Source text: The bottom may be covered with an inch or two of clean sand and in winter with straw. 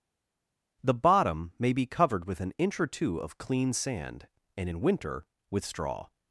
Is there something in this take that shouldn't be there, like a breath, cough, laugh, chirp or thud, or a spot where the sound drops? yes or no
no